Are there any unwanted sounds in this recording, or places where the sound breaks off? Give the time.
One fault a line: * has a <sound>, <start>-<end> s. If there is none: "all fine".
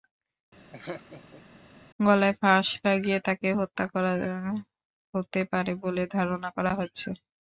* has a laugh, 0.7-1.4 s